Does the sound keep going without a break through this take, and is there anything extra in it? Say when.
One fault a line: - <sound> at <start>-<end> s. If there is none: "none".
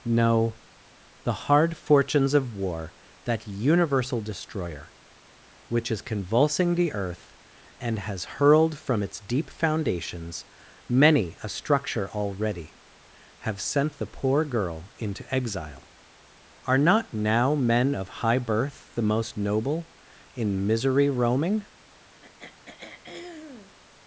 - throat clearing at 22.2-23.8 s